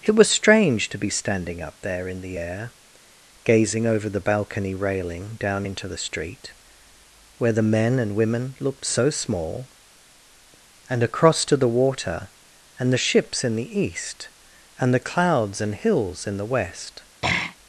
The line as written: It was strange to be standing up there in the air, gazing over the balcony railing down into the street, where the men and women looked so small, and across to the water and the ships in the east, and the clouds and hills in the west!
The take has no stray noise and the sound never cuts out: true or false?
false